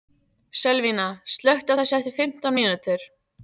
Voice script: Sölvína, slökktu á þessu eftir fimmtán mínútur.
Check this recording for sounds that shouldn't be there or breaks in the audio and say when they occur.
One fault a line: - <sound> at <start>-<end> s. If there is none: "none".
none